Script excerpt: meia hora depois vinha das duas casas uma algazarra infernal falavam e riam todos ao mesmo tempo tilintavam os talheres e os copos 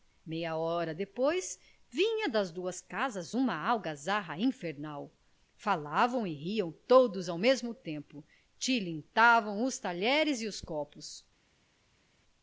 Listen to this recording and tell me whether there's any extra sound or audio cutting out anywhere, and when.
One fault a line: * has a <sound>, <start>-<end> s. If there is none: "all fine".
all fine